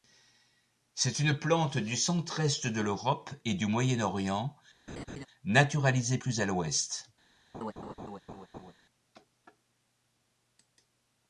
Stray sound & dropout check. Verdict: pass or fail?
fail